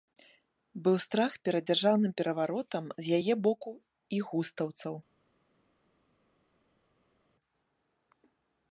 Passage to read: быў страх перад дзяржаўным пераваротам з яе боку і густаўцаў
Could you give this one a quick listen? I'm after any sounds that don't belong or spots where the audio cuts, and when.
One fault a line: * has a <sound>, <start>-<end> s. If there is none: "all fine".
all fine